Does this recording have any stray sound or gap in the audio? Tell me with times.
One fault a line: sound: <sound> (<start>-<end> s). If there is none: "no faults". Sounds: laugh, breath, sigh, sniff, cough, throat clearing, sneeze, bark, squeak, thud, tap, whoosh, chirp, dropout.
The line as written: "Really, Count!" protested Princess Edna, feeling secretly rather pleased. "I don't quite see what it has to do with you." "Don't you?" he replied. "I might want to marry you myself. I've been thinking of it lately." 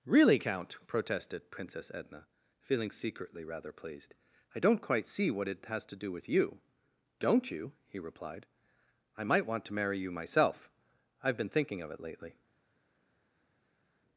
no faults